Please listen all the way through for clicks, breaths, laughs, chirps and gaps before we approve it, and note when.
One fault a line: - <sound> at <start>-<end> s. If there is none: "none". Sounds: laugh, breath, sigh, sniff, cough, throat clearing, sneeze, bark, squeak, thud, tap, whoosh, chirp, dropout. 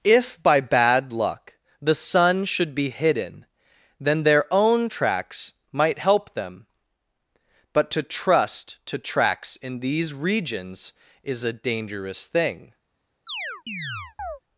- chirp at 13.3-14.4 s